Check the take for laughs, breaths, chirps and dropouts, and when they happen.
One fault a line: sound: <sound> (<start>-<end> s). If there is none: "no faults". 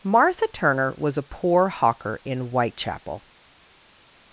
no faults